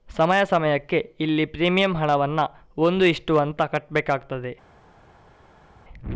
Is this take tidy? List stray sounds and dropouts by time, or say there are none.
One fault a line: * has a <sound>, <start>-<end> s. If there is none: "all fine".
all fine